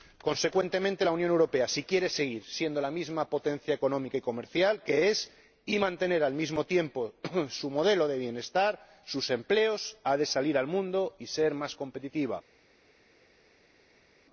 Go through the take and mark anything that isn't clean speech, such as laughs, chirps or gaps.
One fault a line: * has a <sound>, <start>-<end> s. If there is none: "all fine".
all fine